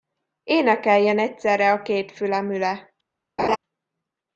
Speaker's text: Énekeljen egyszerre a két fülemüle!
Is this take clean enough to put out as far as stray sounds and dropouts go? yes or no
no